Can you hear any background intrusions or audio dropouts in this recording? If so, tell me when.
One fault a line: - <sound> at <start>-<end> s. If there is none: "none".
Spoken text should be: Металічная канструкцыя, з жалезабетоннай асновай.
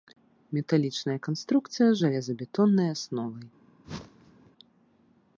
- whoosh at 3.8-4.5 s